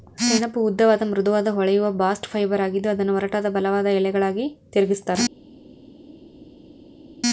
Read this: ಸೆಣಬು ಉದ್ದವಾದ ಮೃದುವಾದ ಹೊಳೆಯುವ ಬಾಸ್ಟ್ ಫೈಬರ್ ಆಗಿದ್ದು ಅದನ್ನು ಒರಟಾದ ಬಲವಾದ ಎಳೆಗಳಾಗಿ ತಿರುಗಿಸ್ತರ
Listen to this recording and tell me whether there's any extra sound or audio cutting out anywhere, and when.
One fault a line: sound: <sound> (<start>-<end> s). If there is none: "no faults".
no faults